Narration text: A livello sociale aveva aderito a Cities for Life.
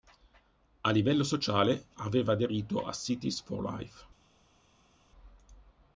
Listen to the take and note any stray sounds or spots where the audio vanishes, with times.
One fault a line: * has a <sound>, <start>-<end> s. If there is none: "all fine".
all fine